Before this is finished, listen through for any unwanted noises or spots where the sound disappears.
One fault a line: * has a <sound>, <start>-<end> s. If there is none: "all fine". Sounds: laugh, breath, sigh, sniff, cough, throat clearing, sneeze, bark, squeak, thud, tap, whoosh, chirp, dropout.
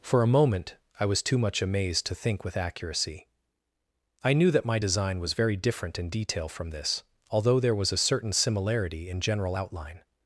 all fine